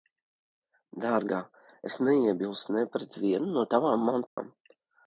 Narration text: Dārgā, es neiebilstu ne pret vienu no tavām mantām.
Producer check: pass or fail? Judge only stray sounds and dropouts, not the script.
fail